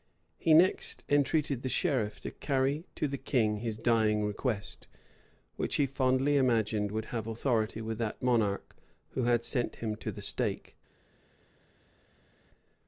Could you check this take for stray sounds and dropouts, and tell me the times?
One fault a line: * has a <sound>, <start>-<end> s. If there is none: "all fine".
all fine